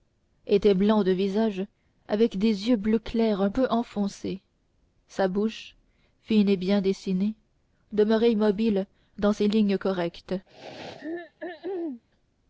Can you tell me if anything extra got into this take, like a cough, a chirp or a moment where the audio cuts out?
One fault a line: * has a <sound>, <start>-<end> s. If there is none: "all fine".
* has a throat clearing, 10.5-12.0 s